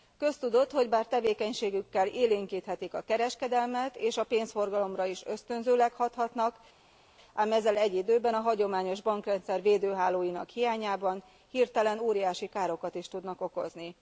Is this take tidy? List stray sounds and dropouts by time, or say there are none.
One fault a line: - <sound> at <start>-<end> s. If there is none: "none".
none